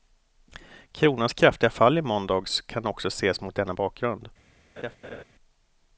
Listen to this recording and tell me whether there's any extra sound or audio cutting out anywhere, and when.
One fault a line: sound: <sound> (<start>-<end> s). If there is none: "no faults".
sound: laugh (4.8-5.2 s)